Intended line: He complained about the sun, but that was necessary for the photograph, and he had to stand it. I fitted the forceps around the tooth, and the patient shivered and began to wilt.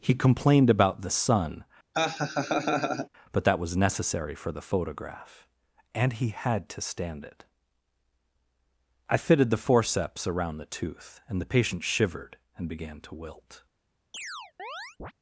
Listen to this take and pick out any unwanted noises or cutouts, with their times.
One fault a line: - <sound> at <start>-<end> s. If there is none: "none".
- laugh at 1.9-3.1 s
- chirp at 14.1-15.1 s